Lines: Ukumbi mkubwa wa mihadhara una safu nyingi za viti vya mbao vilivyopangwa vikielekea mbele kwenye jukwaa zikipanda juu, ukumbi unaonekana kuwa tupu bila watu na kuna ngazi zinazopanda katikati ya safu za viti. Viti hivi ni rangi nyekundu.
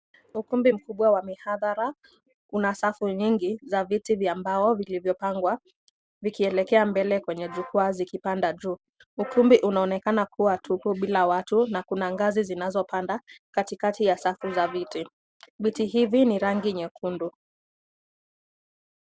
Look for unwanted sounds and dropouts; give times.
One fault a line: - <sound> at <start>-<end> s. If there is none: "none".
none